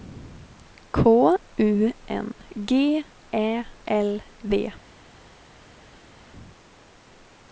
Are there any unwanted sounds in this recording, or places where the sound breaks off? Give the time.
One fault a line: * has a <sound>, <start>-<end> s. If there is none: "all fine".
all fine